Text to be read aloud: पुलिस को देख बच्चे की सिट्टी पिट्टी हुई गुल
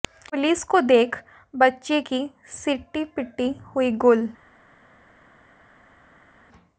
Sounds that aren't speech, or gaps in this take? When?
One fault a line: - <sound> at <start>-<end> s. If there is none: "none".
none